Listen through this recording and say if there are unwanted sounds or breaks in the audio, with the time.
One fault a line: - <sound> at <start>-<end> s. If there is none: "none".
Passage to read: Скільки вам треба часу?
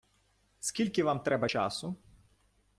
none